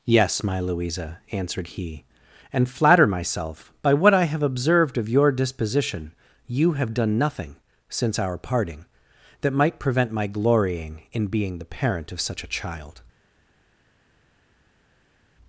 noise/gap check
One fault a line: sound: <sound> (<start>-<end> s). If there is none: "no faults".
no faults